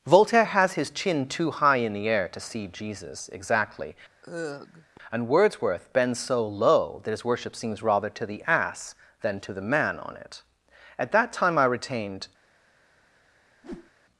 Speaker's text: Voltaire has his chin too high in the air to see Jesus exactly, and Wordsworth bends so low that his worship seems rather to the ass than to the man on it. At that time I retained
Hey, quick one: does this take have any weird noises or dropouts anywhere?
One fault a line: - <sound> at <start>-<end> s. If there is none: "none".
- sigh at 4.2-5.0 s
- whoosh at 13.6-13.9 s